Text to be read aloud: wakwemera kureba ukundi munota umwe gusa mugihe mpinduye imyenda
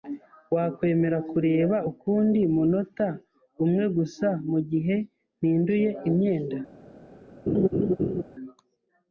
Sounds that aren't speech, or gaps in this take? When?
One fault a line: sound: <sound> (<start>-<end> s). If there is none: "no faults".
sound: laugh (7.5-8.2 s)